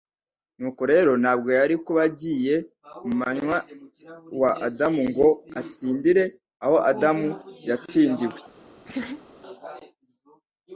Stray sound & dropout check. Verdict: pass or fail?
fail